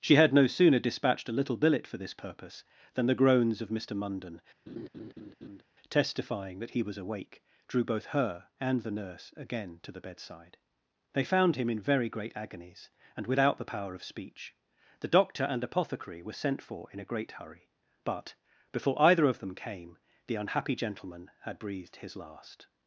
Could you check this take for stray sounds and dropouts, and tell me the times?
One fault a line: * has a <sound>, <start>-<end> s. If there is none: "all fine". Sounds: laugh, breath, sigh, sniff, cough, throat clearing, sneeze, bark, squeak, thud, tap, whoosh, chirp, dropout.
* has a laugh, 4.7-5.6 s